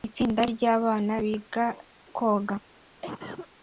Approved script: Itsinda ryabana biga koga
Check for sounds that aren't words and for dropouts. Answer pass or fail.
fail